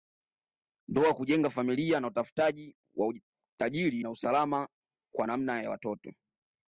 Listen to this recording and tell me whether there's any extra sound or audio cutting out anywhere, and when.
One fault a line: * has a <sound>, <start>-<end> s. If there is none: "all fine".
all fine